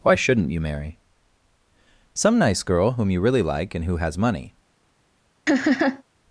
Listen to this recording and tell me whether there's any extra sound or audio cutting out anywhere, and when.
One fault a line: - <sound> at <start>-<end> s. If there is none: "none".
- laugh at 5.5-6.0 s